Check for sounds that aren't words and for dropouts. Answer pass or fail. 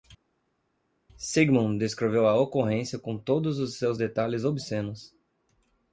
pass